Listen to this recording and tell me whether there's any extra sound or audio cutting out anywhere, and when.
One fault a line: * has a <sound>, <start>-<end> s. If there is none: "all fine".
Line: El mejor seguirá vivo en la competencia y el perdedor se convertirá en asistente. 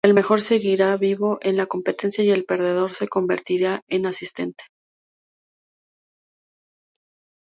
all fine